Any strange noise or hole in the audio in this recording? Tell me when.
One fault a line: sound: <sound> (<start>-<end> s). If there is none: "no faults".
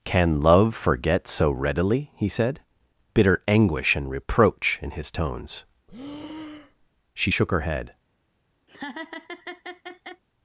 sound: breath (5.9-6.9 s)
sound: laugh (8.7-10.2 s)